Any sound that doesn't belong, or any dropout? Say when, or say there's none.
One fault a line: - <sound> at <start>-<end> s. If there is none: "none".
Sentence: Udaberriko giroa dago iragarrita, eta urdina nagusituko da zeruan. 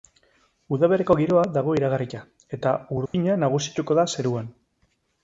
- dropout at 3.1-3.1 s